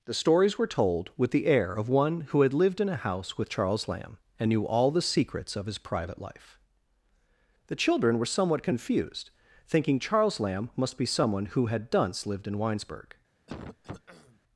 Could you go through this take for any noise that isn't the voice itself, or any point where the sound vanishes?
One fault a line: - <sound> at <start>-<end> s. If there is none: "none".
- throat clearing at 13.5-14.4 s